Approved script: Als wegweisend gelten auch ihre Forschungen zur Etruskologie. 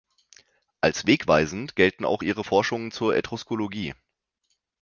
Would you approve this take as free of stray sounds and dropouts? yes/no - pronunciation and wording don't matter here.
yes